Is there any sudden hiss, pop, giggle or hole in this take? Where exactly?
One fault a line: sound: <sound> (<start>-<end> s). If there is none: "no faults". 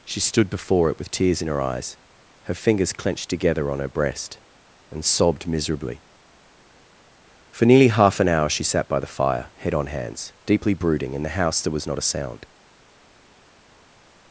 no faults